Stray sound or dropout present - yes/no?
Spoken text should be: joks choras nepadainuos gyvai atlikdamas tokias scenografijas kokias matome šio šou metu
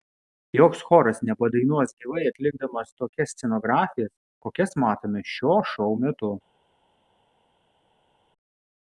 no